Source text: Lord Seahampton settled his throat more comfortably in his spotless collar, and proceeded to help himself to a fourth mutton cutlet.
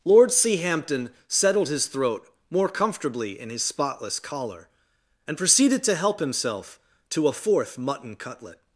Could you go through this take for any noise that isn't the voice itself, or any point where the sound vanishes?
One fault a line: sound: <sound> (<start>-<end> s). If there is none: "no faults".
no faults